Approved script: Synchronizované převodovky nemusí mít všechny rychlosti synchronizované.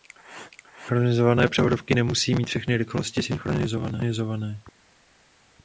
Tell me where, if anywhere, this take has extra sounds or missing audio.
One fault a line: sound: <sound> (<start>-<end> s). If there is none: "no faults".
no faults